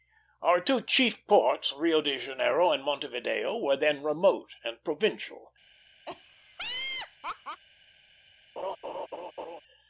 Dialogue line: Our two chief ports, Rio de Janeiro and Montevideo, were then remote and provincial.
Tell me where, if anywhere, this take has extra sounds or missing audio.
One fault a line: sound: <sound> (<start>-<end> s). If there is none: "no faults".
sound: laugh (6.1-7.6 s)
sound: laugh (8.6-9.6 s)